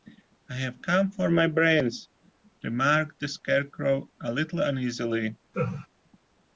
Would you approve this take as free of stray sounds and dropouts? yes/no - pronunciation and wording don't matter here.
no